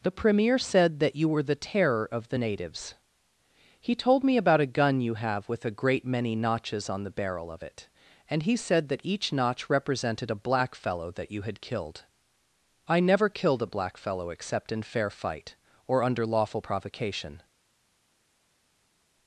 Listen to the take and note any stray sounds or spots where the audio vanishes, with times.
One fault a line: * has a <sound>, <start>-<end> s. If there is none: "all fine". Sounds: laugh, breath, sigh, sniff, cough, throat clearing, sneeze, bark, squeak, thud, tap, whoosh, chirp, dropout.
all fine